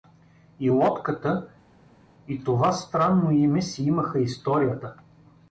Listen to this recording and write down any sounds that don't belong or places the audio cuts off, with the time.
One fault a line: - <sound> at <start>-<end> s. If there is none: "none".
none